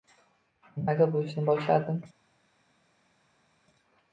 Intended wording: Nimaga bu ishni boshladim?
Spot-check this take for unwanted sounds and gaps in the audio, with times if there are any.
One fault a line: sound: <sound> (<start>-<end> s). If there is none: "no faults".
no faults